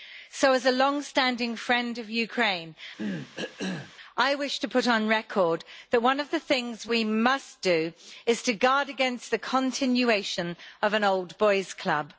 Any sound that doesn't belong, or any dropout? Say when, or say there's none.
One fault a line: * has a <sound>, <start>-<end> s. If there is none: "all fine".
* has a cough, 3.0-3.9 s